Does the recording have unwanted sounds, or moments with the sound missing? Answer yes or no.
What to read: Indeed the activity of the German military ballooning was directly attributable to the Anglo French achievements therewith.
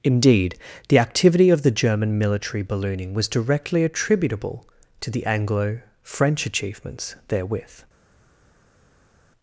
no